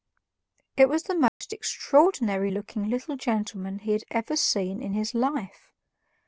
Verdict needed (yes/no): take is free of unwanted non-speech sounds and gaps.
no